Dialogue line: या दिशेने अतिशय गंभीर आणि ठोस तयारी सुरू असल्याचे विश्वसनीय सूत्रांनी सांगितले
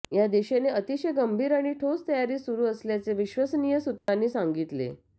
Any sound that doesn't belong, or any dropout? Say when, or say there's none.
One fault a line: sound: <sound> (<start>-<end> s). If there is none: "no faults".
sound: dropout (4.0-4.1 s)